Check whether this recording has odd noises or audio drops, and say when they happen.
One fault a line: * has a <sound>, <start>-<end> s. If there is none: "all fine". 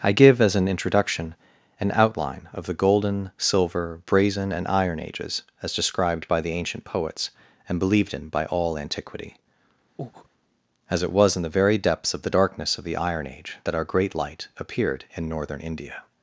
* has a breath, 10.0-10.3 s